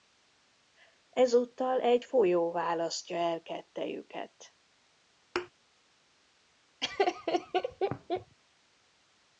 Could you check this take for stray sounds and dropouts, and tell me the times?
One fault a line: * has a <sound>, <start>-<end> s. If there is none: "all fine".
* has a thud, 5.4-5.5 s
* has a laugh, 6.8-8.4 s